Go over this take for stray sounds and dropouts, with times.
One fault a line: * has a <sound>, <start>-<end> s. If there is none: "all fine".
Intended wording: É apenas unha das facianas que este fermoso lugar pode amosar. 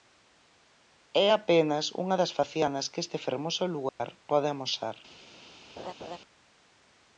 * has a dropout, 3.9-4.0 s
* has a laugh, 5.8-6.2 s